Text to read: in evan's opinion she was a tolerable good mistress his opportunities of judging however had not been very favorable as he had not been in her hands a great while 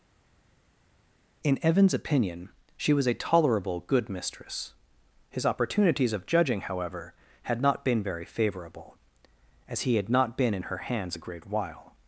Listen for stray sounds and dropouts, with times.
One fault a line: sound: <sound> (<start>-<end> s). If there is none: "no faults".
no faults